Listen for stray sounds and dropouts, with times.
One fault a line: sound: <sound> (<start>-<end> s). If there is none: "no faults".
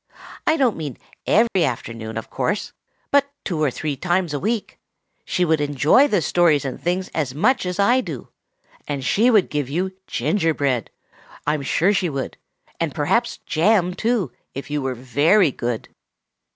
sound: dropout (1.5-1.6 s)